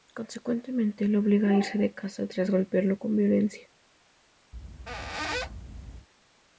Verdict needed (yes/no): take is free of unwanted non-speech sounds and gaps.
no